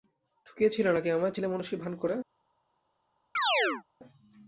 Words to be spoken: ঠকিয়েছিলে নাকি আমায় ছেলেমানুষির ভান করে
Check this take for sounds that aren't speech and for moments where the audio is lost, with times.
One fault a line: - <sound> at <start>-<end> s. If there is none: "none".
- chirp at 3.4-3.8 s